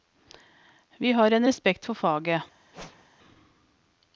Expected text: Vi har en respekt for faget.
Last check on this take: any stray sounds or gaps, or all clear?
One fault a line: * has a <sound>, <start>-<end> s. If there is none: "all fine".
* has a whoosh, 2.7-3.1 s